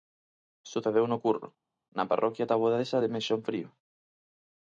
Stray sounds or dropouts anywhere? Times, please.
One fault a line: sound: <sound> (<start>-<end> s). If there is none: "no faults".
no faults